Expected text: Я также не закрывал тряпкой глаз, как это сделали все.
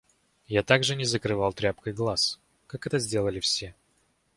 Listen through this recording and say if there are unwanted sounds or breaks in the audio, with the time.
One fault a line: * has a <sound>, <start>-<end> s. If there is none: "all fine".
all fine